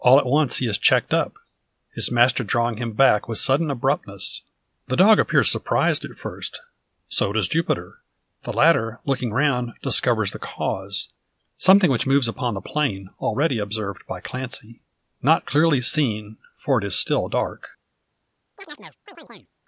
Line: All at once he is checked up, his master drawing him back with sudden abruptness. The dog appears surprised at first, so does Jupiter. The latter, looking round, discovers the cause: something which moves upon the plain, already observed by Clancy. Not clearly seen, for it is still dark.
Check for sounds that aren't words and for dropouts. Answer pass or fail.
fail